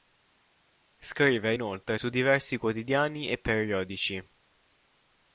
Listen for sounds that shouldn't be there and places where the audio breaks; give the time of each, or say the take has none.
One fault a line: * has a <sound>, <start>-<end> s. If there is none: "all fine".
all fine